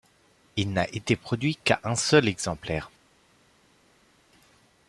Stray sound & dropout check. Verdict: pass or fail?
pass